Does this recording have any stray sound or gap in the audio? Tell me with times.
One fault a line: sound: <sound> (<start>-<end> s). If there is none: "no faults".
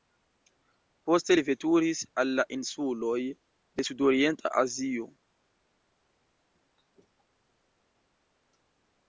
no faults